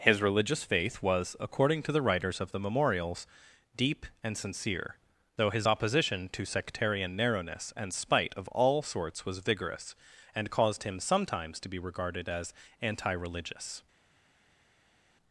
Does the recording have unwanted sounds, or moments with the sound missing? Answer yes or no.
no